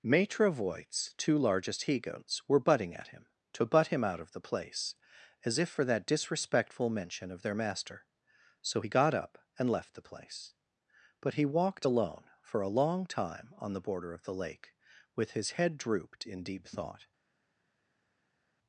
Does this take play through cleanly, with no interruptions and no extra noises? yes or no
yes